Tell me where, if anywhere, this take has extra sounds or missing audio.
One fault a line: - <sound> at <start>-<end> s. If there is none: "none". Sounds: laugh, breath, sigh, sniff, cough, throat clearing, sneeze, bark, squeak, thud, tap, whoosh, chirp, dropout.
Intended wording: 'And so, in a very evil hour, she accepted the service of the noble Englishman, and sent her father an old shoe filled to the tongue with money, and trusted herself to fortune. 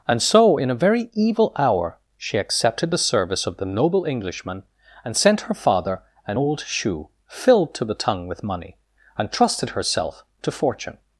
none